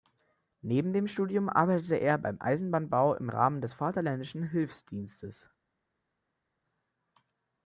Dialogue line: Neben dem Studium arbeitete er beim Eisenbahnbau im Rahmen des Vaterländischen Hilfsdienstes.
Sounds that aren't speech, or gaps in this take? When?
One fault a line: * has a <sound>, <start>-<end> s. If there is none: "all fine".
all fine